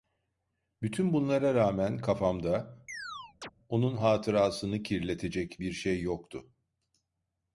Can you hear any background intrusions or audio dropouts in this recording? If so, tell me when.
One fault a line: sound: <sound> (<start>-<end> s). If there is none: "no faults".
sound: chirp (2.9-3.5 s)